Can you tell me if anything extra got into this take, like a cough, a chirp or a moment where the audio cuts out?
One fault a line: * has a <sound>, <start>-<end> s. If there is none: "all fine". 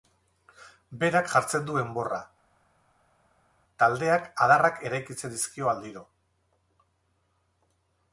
all fine